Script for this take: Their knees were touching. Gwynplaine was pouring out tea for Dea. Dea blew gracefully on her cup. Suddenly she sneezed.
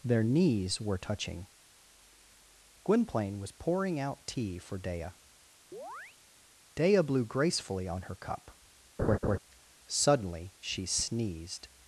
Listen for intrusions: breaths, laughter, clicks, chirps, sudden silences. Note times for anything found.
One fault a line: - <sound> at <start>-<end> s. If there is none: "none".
- chirp at 5.7-6.2 s
- laugh at 9.0-9.4 s